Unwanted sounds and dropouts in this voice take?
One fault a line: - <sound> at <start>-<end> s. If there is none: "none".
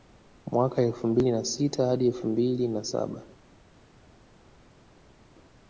none